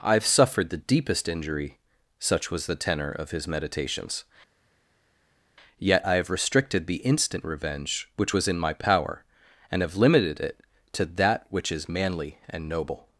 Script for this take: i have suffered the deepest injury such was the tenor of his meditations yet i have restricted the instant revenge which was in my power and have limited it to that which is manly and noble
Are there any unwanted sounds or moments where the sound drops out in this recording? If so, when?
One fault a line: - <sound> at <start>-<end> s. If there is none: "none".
none